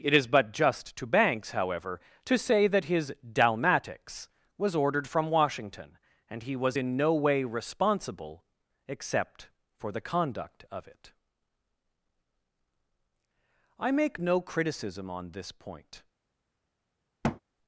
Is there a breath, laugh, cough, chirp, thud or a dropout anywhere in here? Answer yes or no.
yes